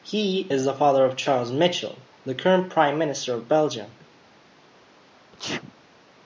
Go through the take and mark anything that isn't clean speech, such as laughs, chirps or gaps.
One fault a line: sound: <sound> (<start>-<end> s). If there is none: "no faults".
sound: sneeze (5.3-5.8 s)